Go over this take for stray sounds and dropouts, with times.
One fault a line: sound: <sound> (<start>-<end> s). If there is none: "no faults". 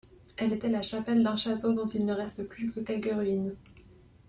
no faults